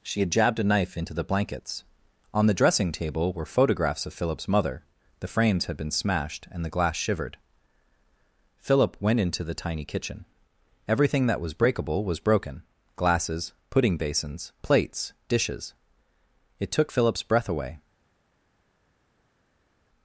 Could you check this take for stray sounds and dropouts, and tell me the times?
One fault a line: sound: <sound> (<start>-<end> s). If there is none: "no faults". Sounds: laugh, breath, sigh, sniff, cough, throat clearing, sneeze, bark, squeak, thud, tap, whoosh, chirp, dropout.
no faults